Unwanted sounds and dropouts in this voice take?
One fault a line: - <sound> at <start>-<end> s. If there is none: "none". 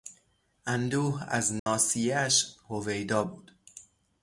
- dropout at 1.6-1.7 s